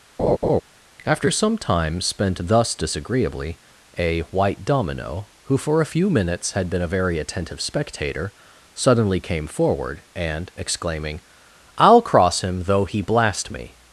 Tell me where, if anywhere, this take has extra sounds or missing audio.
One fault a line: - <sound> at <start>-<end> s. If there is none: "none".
- laugh at 0.2-0.6 s